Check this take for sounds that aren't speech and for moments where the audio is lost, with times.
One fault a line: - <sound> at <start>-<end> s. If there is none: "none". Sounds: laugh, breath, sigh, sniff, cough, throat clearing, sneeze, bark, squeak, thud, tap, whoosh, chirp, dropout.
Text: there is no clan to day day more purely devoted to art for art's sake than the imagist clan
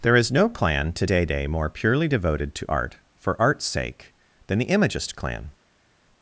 none